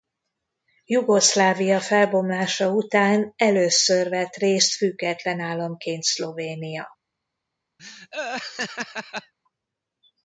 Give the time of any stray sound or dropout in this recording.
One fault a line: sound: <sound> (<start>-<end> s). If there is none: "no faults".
sound: laugh (7.8-9.3 s)